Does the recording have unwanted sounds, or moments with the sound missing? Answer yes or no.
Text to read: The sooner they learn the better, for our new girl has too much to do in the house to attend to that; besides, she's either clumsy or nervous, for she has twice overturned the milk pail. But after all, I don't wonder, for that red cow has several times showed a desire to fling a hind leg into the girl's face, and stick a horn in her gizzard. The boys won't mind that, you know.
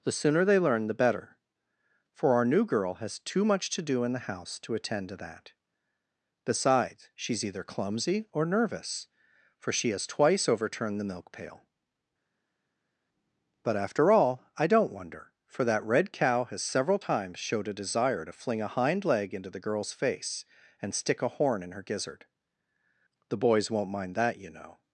no